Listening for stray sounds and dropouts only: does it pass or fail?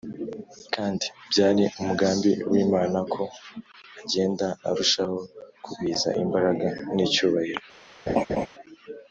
fail